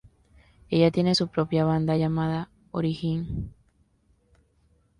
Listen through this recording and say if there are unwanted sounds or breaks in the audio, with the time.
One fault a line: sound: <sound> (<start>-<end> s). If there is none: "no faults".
no faults